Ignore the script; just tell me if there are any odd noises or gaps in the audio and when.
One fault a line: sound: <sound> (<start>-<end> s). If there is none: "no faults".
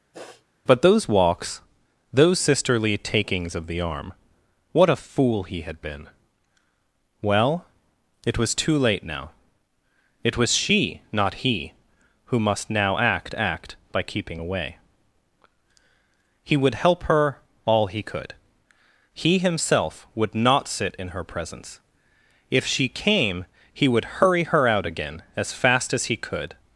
sound: sniff (0.1-0.5 s)